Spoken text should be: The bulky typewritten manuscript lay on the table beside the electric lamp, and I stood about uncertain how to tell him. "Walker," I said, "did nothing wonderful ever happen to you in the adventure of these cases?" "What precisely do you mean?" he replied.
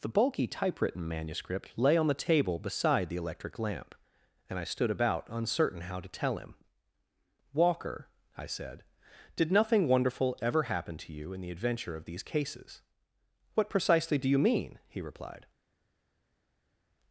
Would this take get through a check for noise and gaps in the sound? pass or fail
pass